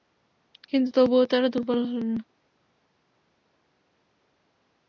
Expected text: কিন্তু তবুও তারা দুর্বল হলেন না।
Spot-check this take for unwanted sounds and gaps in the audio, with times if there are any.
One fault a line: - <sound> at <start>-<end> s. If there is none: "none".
none